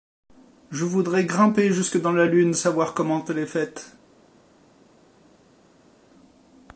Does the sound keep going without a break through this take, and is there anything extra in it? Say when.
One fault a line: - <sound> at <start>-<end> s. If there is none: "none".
none